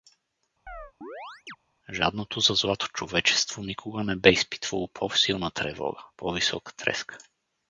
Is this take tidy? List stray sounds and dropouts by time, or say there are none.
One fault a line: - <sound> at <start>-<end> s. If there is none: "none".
- chirp at 0.7-1.6 s